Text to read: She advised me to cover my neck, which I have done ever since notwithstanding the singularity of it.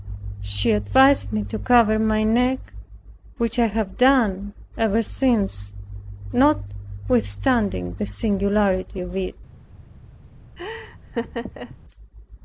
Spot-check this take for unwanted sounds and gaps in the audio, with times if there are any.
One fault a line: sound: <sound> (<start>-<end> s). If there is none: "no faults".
sound: laugh (10.6-11.8 s)